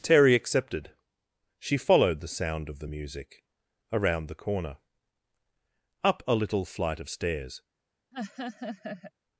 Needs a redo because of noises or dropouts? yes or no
yes